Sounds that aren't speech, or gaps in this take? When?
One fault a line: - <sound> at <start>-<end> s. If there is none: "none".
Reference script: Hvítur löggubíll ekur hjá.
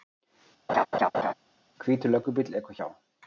- laugh at 0.7-1.3 s